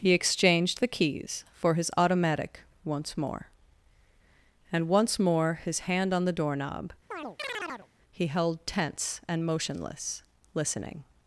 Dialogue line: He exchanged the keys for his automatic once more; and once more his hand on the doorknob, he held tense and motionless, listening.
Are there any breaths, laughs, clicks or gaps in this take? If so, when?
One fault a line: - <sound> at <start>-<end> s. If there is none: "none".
- chirp at 7.1-7.9 s